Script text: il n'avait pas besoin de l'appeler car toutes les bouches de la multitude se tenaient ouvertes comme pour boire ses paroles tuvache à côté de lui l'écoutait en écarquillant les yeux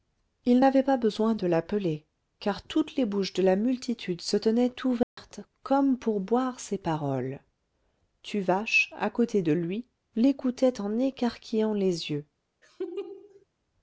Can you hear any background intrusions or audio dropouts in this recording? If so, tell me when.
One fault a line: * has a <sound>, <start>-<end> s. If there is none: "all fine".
* has a dropout, 5.0-5.2 s
* has a laugh, 12.6-13.5 s